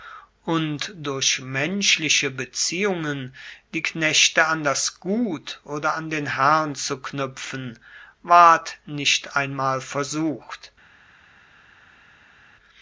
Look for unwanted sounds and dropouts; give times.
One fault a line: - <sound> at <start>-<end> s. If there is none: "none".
none